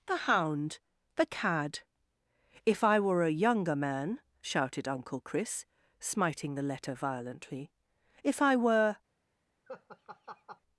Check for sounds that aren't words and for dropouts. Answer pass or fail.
fail